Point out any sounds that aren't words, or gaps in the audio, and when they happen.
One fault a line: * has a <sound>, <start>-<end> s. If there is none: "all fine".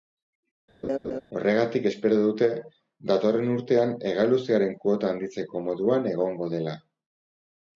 * has a laugh, 0.8-1.2 s